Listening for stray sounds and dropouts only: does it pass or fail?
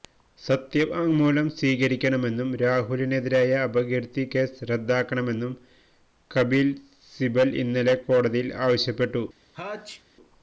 fail